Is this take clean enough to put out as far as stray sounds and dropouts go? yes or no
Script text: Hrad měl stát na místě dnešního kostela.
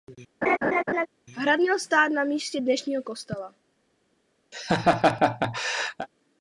no